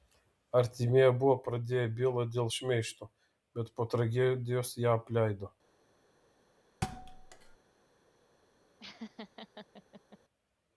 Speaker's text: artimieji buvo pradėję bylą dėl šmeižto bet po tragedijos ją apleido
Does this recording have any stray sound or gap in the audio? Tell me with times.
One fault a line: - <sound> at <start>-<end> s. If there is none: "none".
- thud at 6.8-7.6 s
- laugh at 8.8-10.2 s